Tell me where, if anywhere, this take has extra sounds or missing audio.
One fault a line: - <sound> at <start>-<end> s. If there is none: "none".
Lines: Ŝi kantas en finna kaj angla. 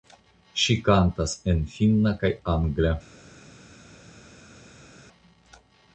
none